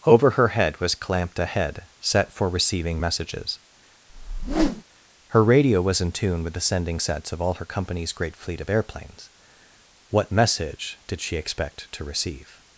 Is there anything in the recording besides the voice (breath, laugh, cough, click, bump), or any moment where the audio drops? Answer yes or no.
yes